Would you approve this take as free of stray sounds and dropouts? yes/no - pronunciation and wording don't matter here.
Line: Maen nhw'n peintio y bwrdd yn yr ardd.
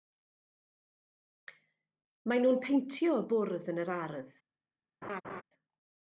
no